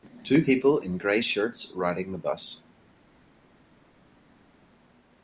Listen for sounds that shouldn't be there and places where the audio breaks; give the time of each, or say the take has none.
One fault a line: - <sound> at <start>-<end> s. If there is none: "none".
none